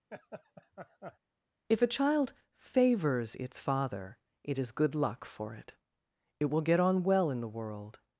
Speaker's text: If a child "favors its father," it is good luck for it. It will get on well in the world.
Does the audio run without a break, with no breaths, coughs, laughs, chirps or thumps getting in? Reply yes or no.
no